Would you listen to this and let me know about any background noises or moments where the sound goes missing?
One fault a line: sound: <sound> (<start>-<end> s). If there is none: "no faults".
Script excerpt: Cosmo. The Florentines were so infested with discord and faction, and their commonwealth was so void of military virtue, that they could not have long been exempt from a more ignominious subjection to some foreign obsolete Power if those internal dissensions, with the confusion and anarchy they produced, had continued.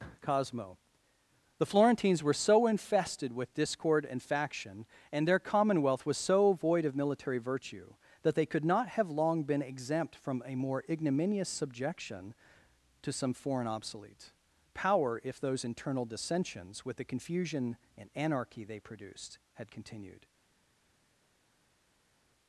no faults